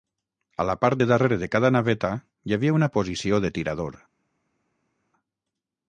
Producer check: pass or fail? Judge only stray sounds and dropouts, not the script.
pass